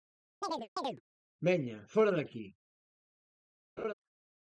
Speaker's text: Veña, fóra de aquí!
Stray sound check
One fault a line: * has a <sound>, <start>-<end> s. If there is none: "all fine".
* has a chirp, 0.4-1.0 s
* has a laugh, 3.8-3.9 s